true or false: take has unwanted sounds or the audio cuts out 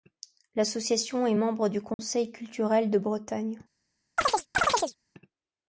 true